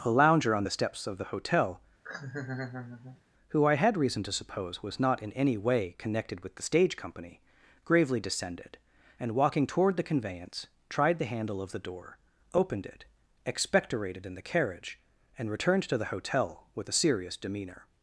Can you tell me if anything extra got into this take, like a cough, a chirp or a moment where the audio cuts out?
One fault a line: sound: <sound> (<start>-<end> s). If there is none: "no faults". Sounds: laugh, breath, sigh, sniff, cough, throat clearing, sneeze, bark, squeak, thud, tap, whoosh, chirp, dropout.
sound: laugh (2.0-3.2 s)